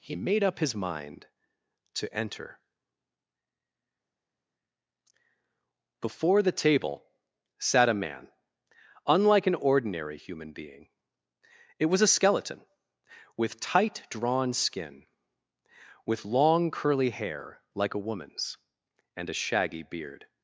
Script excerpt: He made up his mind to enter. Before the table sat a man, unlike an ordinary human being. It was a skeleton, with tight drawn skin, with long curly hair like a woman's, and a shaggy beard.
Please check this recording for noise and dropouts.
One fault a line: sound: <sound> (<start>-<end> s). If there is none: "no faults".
no faults